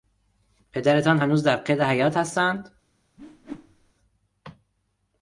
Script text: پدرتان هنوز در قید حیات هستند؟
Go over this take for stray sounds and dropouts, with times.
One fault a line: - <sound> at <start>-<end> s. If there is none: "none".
- whoosh at 3.2-3.9 s